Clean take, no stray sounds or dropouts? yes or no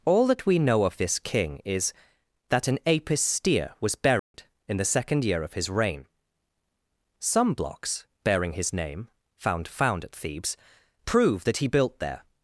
no